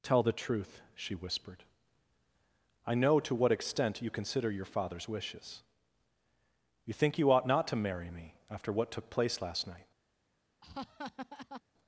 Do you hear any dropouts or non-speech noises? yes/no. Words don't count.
yes